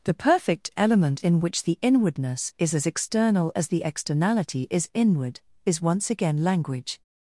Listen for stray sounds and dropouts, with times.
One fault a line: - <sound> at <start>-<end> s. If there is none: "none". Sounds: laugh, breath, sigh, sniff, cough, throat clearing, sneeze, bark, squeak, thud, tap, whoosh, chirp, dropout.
none